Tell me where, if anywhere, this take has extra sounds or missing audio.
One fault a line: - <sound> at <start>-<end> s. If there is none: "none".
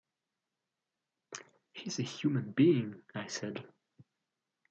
none